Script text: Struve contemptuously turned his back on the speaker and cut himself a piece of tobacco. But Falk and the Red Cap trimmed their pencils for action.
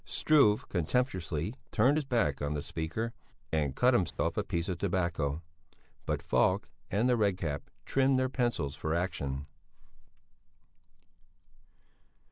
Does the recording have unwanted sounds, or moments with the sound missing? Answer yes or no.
yes